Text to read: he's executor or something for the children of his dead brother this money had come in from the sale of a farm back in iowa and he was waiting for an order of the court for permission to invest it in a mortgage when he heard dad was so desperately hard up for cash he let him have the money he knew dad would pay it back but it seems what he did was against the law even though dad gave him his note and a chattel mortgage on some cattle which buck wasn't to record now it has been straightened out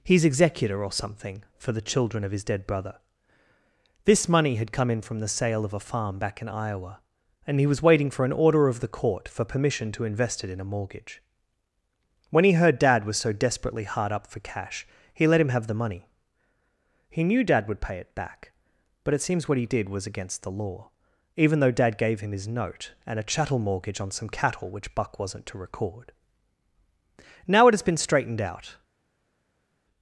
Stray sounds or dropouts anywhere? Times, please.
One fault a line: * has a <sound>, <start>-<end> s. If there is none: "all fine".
all fine